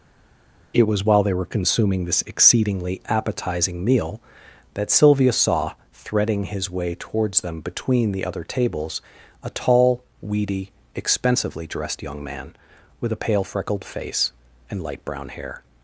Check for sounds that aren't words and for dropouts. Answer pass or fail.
pass